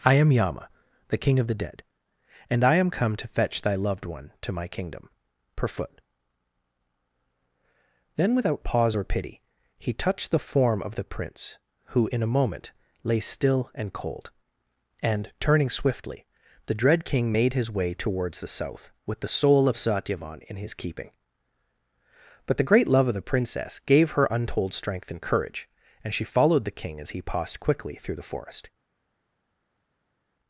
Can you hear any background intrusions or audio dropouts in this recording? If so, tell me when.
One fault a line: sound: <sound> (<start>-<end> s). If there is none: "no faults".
no faults